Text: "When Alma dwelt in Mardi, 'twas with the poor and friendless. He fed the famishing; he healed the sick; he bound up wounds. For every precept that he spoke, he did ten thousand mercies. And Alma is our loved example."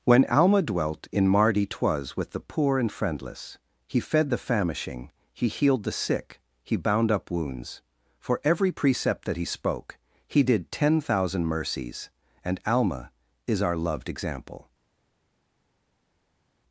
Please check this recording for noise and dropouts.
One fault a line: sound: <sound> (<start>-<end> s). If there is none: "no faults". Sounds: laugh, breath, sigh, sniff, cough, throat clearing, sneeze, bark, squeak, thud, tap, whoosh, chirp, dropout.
no faults